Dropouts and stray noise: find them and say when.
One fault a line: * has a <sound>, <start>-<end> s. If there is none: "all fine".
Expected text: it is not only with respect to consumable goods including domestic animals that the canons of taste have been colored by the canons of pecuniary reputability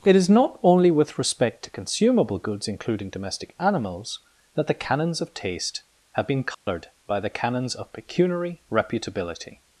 * has a dropout, 6.5-6.7 s